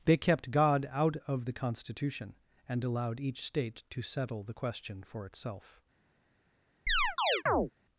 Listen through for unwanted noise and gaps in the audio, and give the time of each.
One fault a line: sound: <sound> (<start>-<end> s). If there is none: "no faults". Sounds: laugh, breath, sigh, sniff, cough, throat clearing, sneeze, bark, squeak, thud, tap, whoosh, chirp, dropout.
sound: chirp (6.9-7.7 s)